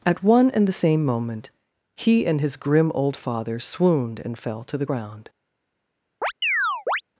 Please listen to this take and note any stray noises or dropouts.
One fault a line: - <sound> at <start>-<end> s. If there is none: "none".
- chirp at 6.2-7.0 s